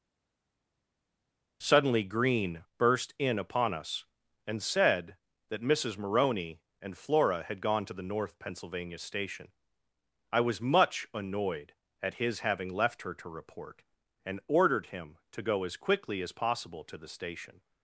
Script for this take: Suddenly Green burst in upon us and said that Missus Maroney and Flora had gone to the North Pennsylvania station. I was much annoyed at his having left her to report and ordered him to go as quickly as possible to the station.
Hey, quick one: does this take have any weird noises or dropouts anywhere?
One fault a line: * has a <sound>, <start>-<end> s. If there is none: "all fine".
all fine